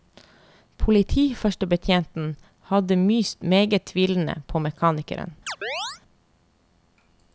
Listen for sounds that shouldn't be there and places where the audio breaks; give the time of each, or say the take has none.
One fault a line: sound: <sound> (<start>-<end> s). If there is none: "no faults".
sound: chirp (5.5-6.0 s)